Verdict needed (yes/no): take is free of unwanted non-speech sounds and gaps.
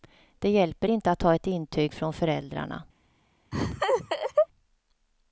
no